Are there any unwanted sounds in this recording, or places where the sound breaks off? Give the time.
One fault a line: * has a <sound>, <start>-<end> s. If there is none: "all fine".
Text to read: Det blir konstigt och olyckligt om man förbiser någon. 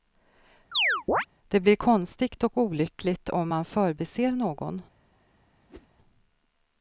* has a chirp, 0.7-1.3 s
* has a whoosh, 5.7-5.9 s